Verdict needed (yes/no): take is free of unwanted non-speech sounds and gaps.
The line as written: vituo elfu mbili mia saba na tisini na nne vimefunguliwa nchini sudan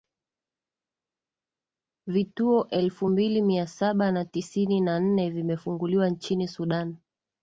yes